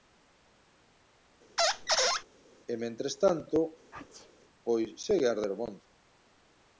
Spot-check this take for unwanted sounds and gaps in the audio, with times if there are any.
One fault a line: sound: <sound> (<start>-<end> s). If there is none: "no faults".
sound: squeak (1.6-2.2 s)
sound: sneeze (3.9-4.3 s)